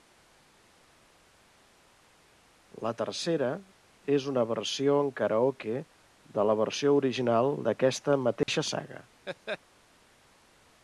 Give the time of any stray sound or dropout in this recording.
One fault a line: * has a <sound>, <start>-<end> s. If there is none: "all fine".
* has a dropout, 8.4-8.5 s
* has a laugh, 9.3-9.6 s